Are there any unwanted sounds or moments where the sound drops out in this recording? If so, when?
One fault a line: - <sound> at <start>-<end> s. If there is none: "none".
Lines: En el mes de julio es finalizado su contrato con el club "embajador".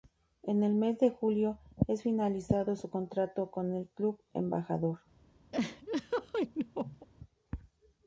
- laugh at 5.5-7.1 s